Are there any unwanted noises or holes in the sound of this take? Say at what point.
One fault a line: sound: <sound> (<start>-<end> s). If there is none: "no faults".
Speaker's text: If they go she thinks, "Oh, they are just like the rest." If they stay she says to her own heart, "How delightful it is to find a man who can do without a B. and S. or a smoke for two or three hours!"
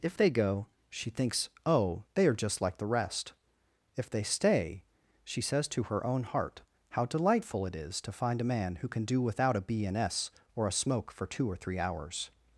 no faults